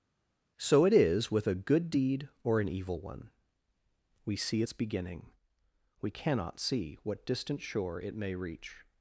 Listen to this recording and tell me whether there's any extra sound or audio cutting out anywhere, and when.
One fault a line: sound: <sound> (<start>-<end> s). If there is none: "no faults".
no faults